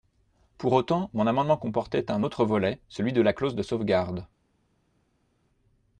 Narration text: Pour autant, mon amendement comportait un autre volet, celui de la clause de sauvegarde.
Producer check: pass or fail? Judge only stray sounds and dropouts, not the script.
pass